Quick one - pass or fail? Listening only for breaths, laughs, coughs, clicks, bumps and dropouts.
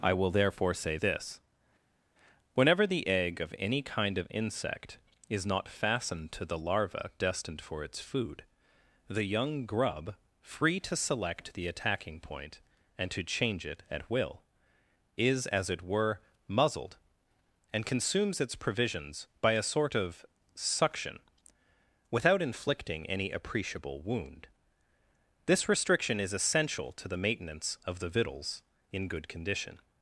pass